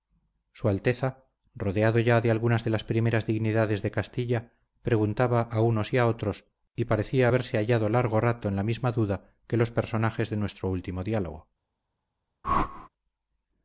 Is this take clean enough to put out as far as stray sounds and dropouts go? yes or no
no